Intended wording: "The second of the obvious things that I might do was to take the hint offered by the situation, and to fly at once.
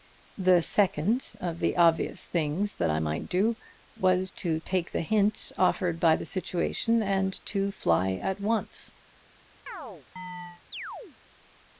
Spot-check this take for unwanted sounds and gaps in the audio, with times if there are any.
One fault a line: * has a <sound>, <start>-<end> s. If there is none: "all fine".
* has a chirp, 9.7-11.2 s